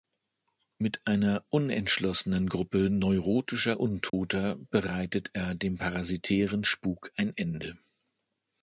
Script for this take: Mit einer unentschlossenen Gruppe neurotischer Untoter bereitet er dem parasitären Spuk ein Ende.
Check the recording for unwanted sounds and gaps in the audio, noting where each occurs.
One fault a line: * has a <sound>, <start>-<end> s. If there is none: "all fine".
* has a dropout, 4.1-4.1 s